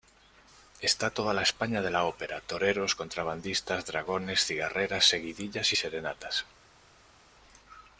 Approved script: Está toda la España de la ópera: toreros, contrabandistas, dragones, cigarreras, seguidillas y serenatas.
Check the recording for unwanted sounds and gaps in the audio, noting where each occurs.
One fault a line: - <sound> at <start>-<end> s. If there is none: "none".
none